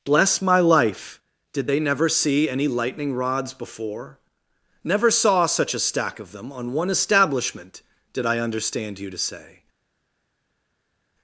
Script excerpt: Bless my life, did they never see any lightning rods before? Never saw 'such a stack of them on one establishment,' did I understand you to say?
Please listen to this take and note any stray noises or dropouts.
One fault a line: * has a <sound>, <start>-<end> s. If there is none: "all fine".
all fine